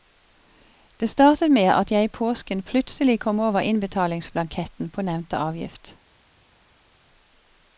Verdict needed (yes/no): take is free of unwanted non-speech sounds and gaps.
yes